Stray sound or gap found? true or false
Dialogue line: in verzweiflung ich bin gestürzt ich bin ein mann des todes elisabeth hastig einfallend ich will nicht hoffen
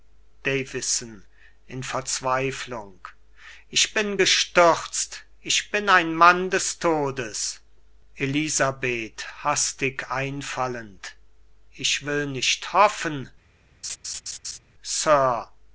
true